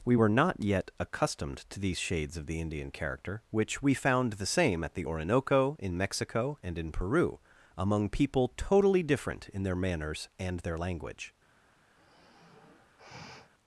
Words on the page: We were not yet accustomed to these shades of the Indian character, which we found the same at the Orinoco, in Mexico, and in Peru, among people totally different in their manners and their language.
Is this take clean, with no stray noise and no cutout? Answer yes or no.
no